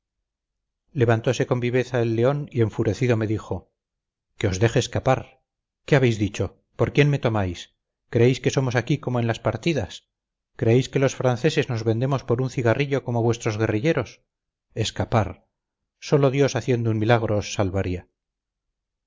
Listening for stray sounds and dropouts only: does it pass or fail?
pass